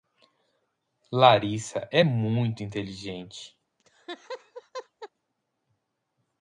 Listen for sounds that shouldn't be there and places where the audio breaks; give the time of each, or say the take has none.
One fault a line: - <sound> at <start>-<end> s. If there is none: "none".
- laugh at 3.8-5.1 s